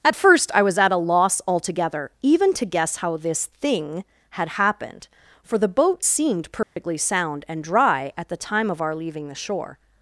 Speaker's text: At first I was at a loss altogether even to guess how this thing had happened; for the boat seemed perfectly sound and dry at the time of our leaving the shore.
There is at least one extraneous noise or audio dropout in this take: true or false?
true